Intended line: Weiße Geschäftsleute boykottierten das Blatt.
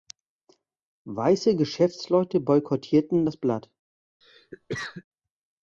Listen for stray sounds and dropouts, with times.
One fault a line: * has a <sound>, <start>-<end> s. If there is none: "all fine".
* has a cough, 4.2-5.0 s